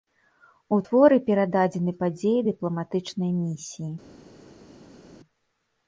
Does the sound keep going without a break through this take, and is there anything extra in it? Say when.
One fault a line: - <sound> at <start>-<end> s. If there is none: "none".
none